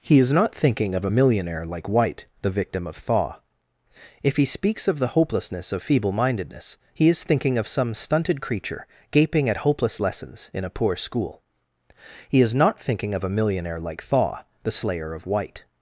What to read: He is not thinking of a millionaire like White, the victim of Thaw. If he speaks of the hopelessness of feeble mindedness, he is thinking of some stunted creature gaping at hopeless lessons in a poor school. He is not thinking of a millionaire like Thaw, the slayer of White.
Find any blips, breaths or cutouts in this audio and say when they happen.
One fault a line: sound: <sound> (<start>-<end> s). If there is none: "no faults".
no faults